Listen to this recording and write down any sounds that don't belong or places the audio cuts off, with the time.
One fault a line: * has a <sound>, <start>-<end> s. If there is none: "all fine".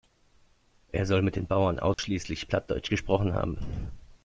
* has a dropout, 1.9-2.0 s